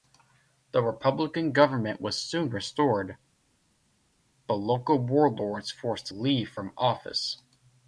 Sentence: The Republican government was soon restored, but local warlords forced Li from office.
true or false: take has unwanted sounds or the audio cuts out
false